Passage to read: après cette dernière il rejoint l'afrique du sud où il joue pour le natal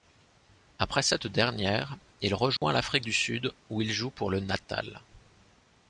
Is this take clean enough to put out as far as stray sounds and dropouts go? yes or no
no